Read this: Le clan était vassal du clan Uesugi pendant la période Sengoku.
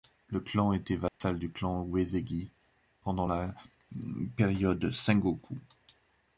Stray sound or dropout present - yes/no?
yes